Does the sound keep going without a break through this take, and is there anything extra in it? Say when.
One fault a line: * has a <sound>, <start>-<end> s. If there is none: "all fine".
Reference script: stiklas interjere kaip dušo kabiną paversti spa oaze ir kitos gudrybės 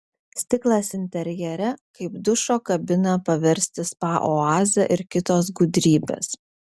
all fine